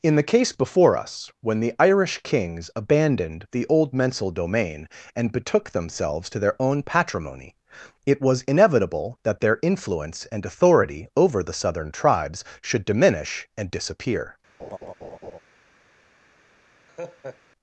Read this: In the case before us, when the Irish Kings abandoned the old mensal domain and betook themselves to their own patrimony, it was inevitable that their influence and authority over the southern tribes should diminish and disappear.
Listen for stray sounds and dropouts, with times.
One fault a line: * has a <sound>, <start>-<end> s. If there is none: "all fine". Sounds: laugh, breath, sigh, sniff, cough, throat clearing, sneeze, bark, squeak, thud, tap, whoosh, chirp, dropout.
* has a laugh, 14.6-15.4 s
* has a laugh, 16.9-17.4 s